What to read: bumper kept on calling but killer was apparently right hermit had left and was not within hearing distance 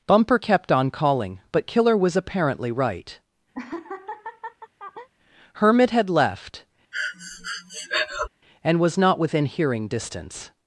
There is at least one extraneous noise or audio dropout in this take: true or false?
true